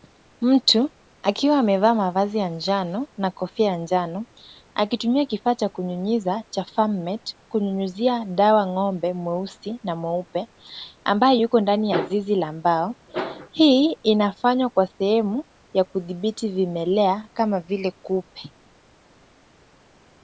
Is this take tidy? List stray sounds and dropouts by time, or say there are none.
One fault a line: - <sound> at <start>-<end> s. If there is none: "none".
none